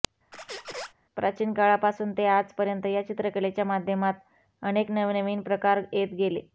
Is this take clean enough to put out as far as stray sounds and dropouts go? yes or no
no